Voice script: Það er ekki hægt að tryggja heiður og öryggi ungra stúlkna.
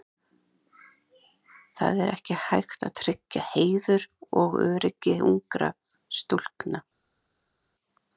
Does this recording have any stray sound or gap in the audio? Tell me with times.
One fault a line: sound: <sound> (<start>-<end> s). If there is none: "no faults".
no faults